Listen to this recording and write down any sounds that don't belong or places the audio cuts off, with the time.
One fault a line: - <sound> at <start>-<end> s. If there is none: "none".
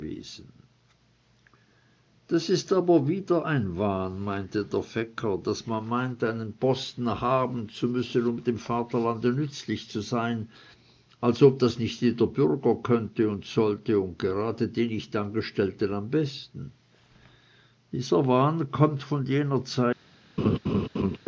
- laugh at 20.4-21.2 s